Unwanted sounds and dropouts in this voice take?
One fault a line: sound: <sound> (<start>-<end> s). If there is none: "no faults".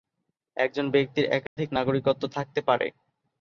sound: dropout (1.5-1.6 s)